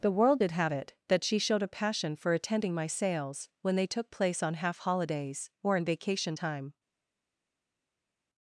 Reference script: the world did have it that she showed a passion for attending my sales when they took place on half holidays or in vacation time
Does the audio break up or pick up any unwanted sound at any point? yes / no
no